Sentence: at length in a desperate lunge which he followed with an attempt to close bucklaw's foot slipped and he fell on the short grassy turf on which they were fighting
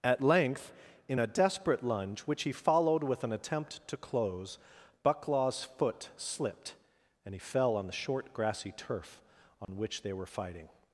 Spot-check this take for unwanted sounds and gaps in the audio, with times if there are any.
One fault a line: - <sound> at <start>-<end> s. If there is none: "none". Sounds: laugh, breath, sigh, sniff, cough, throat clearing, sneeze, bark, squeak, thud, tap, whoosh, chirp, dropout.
- dropout at 9.6-9.7 s